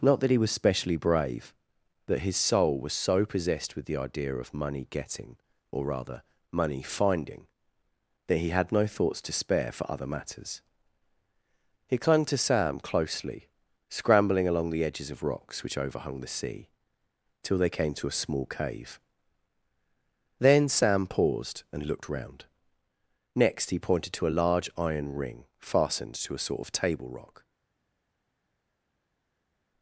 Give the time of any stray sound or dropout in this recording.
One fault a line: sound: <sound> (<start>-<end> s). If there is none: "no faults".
no faults